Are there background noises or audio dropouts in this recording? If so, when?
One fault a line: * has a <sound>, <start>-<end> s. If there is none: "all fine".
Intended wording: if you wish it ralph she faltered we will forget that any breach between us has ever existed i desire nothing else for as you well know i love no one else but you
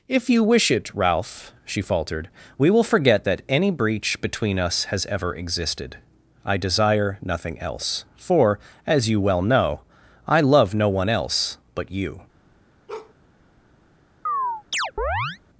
* has a bark, 12.9-13.1 s
* has a chirp, 14.3-15.4 s